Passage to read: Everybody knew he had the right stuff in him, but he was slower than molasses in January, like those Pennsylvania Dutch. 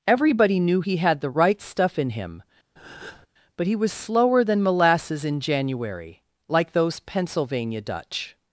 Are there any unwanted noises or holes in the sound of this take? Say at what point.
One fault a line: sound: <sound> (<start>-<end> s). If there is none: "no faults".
sound: breath (2.8-3.3 s)